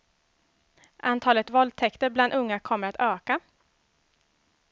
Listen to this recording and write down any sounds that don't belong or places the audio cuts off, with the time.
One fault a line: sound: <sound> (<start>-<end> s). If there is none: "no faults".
no faults